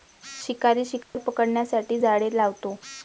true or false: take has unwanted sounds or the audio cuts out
true